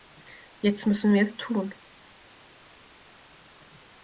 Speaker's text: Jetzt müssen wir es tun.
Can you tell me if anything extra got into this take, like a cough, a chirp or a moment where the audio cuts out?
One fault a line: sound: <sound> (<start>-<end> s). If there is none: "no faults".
no faults